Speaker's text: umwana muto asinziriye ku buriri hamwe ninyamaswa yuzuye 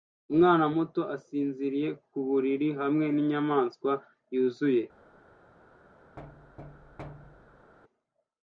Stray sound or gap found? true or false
true